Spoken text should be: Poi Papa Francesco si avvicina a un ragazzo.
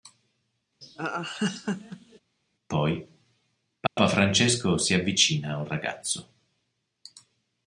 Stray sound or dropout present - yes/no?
yes